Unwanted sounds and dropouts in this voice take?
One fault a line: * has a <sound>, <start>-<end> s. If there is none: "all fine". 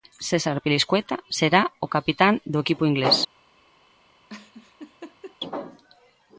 * has a laugh, 4.3-5.4 s